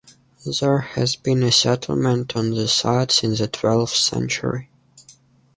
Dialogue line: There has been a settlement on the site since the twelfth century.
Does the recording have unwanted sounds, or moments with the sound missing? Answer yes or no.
no